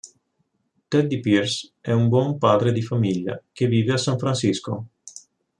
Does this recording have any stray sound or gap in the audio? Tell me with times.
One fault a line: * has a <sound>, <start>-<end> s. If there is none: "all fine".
all fine